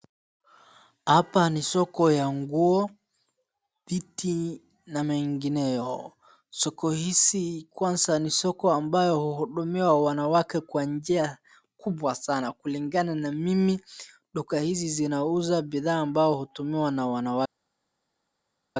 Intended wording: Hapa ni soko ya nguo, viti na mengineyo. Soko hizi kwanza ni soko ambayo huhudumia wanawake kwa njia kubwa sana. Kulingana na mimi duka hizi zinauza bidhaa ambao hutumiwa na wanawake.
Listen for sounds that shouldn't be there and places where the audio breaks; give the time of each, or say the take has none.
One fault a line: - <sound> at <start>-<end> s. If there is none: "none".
none